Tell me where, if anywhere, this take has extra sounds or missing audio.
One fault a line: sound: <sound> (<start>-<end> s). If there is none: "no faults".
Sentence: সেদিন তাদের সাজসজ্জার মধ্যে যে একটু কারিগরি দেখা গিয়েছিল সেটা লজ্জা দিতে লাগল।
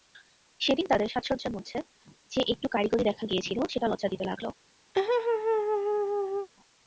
sound: laugh (4.9-6.5 s)